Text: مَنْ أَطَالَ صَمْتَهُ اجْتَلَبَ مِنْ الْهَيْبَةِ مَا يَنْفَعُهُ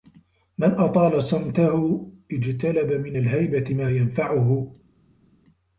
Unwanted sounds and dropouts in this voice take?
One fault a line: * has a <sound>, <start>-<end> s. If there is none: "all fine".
all fine